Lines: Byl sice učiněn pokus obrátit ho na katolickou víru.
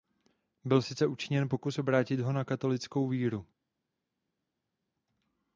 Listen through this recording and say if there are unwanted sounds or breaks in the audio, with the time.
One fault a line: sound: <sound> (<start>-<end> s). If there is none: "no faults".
no faults